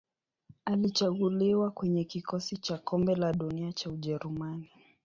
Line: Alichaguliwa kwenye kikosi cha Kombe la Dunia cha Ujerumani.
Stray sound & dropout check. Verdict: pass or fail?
pass